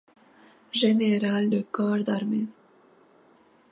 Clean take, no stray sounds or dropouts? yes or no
yes